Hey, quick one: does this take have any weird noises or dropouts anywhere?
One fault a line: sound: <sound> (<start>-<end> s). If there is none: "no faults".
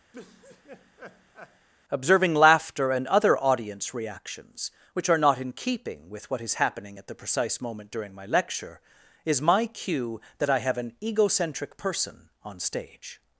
sound: laugh (0.1-1.7 s)